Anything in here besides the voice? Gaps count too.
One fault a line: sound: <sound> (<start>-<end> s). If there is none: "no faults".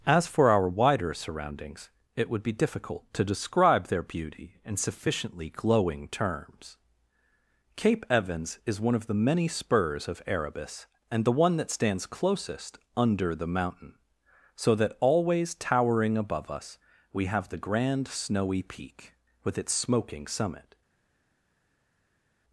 no faults